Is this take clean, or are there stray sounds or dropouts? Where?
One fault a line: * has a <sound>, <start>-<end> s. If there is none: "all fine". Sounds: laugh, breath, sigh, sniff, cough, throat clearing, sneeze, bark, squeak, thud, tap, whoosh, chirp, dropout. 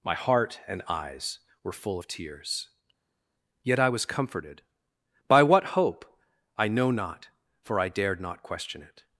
all fine